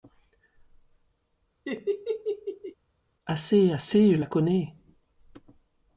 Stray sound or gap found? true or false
true